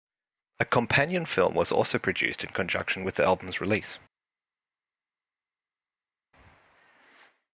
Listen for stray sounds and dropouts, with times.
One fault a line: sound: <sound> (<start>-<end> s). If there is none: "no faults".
no faults